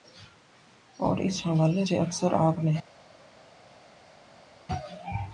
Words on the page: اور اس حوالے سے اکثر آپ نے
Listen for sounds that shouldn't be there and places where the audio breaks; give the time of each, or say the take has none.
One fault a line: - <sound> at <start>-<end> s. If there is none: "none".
none